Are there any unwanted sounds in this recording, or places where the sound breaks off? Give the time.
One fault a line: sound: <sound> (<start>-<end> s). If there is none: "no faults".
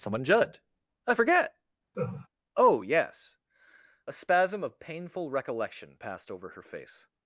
sound: laugh (1.9-2.3 s)